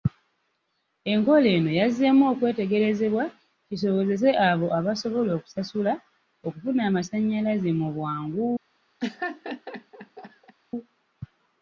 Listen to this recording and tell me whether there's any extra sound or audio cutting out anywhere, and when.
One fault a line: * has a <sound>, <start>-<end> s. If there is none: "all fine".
* has a laugh, 9.0-10.5 s